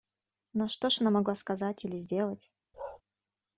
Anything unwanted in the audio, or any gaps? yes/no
yes